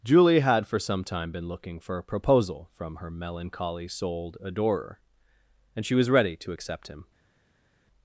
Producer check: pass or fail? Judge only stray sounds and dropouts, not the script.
pass